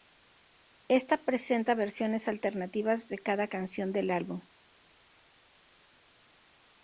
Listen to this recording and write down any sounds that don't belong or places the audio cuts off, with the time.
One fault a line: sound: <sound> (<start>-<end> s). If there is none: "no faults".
no faults